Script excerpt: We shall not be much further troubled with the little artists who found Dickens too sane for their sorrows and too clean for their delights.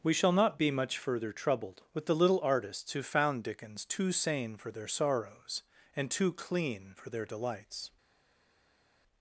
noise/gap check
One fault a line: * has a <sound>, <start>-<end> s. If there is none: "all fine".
all fine